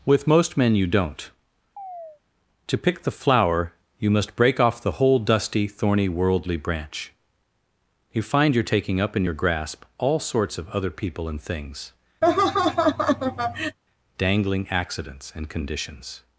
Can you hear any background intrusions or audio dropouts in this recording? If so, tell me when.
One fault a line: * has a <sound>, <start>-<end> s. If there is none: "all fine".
* has a chirp, 1.8-2.2 s
* has a laugh, 12.2-13.8 s